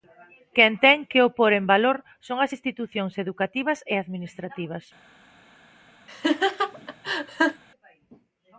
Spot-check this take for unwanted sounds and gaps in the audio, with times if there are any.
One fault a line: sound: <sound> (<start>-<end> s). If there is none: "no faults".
sound: laugh (6.1-7.6 s)